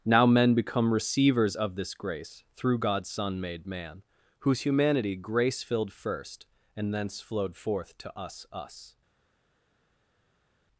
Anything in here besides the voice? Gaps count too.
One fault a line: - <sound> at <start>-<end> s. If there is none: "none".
none